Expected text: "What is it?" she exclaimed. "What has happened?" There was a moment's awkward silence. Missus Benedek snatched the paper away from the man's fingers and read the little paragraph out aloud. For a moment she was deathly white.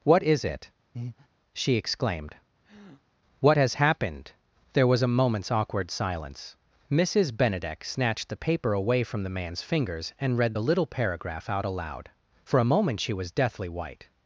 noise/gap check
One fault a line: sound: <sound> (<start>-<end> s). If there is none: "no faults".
sound: breath (0.9-1.3 s)
sound: breath (2.6-3.0 s)